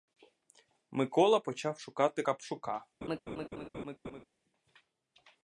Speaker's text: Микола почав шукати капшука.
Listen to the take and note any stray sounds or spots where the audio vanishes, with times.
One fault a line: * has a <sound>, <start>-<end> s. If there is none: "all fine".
* has a laugh, 3.0-4.2 s